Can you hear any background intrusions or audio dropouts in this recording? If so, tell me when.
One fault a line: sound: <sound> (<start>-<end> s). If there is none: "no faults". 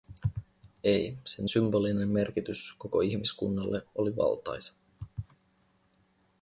no faults